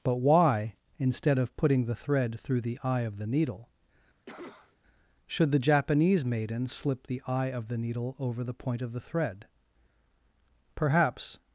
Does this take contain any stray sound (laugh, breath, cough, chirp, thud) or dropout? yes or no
yes